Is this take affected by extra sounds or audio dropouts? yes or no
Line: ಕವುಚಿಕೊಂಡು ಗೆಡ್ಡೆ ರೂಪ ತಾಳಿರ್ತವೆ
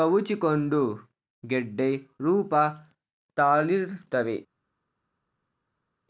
no